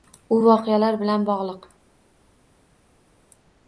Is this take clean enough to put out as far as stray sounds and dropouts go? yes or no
yes